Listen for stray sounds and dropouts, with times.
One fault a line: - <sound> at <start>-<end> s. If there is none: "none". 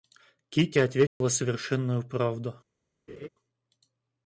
- dropout at 1.1-1.2 s
- laugh at 3.1-3.3 s